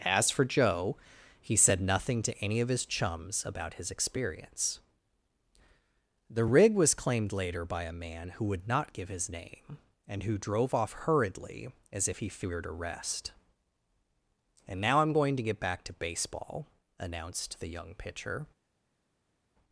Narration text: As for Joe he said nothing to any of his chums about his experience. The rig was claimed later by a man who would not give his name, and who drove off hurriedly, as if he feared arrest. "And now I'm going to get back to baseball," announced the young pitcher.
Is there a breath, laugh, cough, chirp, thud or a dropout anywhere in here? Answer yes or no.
no